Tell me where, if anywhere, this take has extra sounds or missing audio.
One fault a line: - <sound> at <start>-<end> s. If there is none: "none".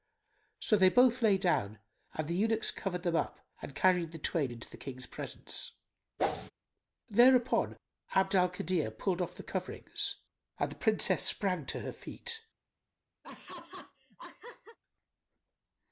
- whoosh at 6.2-6.5 s
- laugh at 13.2-14.8 s